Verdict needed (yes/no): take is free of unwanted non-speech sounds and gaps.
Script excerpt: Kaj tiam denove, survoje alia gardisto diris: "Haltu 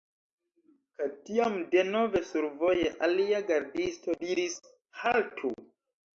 yes